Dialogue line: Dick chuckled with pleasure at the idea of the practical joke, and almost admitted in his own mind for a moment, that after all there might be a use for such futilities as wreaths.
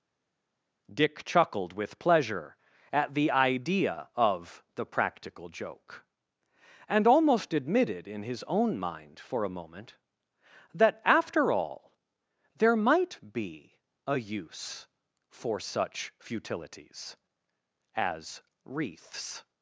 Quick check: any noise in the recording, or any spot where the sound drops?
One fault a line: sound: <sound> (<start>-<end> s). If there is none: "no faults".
no faults